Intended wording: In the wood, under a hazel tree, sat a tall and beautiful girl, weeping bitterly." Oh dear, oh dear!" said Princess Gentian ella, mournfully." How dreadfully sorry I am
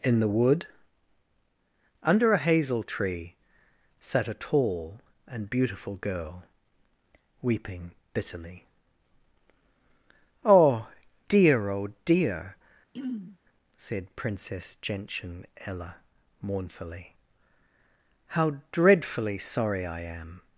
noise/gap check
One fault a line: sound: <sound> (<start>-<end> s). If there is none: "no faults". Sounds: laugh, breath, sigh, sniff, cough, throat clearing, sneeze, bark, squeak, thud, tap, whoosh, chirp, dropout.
sound: throat clearing (12.9-13.4 s)